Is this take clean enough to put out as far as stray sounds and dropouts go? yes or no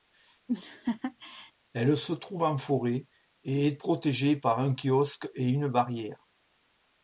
no